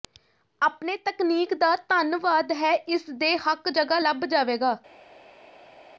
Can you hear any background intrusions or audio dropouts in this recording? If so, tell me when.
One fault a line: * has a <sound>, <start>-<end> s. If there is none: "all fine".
all fine